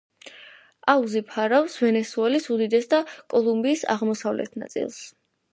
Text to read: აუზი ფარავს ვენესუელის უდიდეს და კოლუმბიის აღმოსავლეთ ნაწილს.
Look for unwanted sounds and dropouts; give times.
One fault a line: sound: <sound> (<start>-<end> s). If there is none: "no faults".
no faults